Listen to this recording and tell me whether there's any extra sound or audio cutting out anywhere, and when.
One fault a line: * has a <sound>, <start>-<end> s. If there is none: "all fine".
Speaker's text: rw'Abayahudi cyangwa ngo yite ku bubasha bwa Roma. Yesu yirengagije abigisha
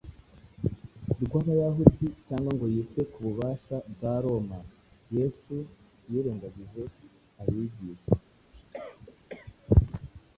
* has a cough, 8.5-9.6 s